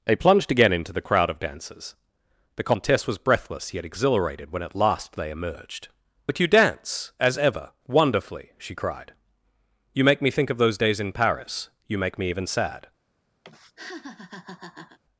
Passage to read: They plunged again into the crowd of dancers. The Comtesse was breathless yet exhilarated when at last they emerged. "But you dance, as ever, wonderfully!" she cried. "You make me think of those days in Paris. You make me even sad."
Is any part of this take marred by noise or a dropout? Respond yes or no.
yes